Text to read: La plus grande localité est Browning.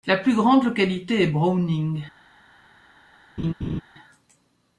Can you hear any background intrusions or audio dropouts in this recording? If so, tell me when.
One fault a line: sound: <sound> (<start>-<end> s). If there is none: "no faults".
sound: laugh (3.4-3.8 s)